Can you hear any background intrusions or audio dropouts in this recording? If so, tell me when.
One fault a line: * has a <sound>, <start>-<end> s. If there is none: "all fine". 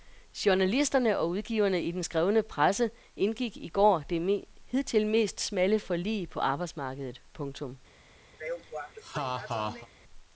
* has a laugh, 8.3-9.9 s